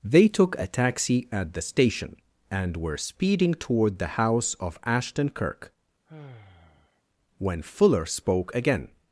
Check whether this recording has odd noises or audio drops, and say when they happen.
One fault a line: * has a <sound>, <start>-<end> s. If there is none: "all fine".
* has a sigh, 6.1-7.0 s